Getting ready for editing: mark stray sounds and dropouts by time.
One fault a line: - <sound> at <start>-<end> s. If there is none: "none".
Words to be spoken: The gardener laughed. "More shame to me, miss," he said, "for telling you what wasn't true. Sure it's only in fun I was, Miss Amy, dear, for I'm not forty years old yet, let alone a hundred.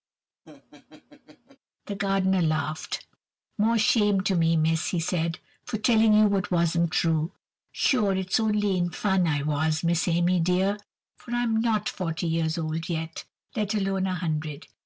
- laugh at 0.5-1.6 s